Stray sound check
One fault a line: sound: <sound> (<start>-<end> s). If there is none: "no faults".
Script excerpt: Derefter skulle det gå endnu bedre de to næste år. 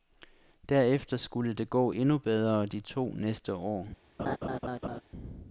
sound: laugh (4.2-5.0 s)